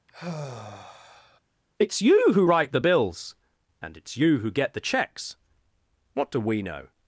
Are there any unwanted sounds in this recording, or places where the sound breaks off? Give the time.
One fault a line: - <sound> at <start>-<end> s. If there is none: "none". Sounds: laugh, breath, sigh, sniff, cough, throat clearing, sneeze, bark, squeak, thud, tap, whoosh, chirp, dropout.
- sigh at 0.1-1.4 s